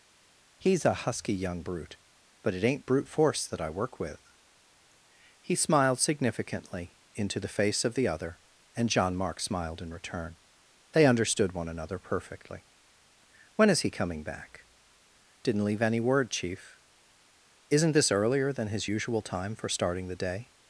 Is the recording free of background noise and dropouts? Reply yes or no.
yes